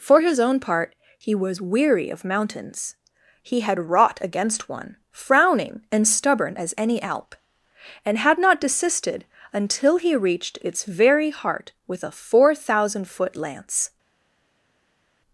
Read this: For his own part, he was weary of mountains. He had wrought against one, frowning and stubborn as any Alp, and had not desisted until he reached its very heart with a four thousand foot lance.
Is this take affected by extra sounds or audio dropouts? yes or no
no